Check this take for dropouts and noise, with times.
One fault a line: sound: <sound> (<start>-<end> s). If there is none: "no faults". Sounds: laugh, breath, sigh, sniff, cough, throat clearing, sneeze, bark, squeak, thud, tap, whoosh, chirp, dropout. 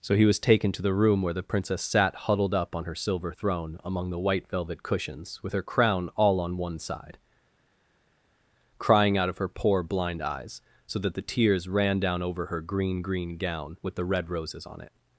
no faults